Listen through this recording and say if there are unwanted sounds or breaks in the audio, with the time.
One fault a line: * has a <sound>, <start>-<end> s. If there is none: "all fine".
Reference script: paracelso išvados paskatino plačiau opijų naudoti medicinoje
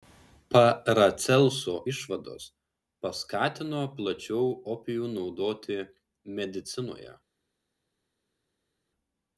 all fine